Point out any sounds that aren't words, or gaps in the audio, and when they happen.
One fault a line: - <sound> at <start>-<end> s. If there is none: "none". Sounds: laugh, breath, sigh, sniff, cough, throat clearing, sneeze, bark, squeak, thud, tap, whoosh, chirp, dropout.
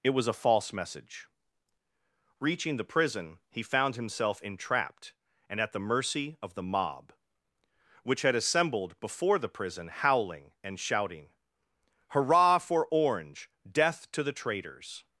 none